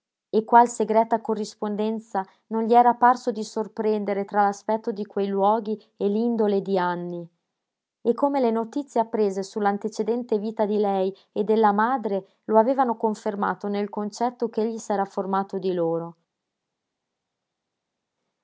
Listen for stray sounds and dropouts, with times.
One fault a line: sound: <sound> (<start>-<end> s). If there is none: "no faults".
no faults